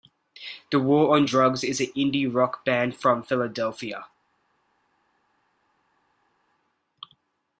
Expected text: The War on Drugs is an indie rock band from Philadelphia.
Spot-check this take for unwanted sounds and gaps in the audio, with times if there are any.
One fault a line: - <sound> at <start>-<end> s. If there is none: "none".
none